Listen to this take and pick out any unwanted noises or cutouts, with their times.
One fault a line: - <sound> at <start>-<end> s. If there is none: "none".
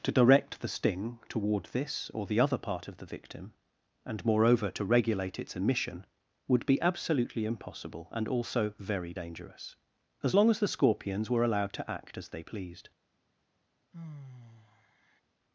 - sigh at 13.9-15.2 s